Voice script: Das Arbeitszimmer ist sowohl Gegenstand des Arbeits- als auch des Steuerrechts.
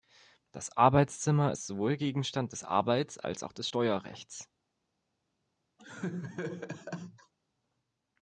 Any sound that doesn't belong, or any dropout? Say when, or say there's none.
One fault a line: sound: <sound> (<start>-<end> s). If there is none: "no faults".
sound: laugh (5.8-7.3 s)